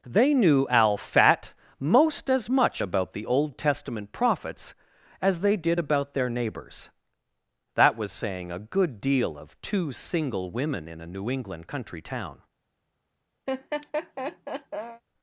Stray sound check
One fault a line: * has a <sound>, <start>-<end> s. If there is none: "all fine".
* has a laugh, 13.5-15.0 s